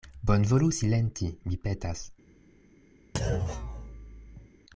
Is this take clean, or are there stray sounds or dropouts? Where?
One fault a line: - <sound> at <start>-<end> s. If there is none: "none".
- thud at 3.1-4.5 s